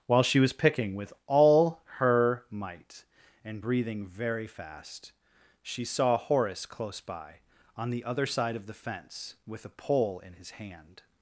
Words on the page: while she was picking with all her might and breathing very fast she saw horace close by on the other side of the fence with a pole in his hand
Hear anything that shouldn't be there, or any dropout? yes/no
no